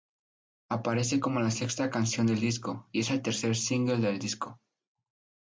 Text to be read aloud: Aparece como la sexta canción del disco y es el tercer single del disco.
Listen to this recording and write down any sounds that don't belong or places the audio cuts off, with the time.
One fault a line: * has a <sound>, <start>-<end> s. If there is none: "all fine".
all fine